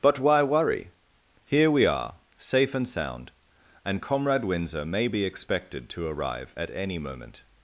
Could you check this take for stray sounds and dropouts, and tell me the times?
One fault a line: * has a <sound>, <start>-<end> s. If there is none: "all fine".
all fine